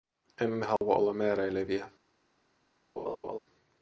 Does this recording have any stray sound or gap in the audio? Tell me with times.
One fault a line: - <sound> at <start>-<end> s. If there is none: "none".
- dropout at 0.8-0.8 s
- laugh at 3.0-3.4 s